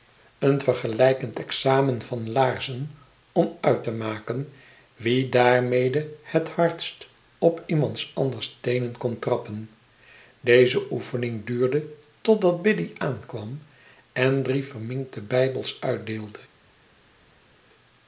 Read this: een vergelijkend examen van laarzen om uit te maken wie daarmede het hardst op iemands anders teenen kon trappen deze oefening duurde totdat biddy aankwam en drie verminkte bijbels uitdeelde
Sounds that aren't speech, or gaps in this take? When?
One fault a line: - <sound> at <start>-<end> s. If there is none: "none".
none